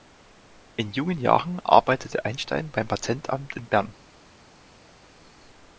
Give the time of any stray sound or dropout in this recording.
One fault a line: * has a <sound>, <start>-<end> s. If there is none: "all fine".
all fine